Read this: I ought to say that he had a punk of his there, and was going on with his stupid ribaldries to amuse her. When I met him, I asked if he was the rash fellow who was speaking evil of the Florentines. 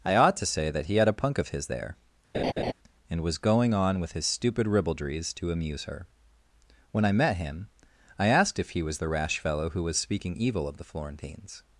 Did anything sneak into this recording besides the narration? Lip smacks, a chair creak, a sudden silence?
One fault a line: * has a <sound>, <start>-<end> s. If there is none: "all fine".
* has a laugh, 2.3-2.7 s